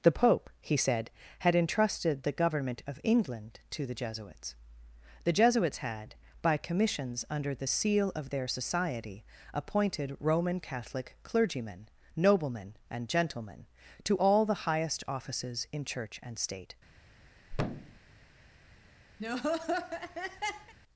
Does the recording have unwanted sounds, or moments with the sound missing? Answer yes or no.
yes